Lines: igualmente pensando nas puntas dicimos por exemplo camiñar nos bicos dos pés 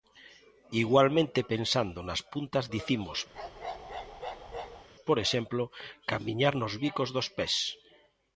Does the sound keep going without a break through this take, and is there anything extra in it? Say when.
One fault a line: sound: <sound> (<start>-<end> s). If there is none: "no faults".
sound: bark (3.3-4.9 s)